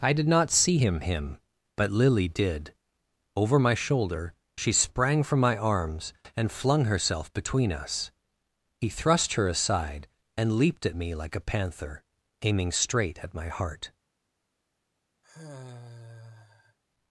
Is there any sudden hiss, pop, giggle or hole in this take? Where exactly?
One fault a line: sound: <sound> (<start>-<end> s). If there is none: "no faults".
sound: sigh (15.2-16.8 s)